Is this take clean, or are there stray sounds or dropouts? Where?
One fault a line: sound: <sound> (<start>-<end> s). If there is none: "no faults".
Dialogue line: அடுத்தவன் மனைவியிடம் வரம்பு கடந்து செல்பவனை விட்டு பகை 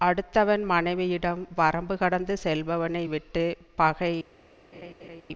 sound: laugh (4.7-5.2 s)